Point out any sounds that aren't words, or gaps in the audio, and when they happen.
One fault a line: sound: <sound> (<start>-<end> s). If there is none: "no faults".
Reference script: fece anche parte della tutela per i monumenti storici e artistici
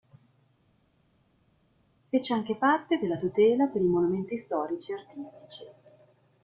no faults